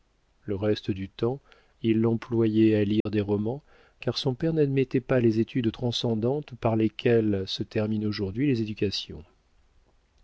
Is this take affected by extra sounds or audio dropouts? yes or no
yes